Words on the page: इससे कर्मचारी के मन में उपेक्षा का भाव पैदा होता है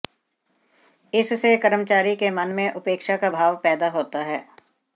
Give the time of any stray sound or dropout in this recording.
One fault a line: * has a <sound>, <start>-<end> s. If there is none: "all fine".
all fine